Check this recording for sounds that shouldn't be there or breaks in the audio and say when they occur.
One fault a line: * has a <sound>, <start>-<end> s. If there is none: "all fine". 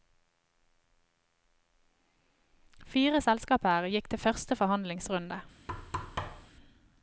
* has a thud, 5.7-6.5 s